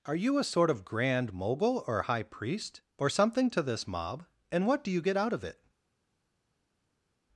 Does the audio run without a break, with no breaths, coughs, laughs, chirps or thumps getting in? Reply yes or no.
yes